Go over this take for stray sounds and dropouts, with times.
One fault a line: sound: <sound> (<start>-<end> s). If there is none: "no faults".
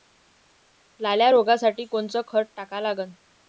no faults